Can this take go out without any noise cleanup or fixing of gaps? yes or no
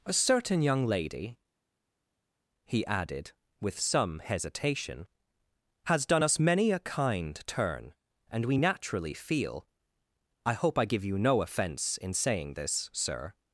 yes